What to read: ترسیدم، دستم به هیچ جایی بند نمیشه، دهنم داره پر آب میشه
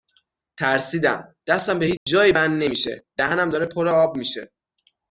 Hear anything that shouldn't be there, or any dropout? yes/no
yes